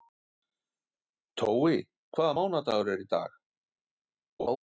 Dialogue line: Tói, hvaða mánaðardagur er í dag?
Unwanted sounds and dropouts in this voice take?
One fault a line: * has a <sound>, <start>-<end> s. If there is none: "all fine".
* has a laugh, 4.4-4.6 s